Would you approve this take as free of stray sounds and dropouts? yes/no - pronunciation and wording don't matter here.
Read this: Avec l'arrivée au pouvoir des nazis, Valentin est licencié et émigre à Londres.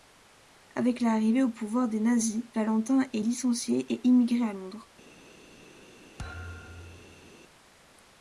no